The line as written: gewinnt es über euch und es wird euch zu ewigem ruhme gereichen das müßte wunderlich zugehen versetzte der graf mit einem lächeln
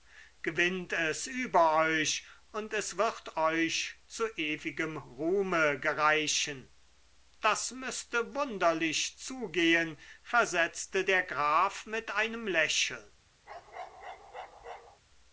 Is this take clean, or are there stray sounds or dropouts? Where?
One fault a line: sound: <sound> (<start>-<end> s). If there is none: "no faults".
sound: bark (13.5-15.0 s)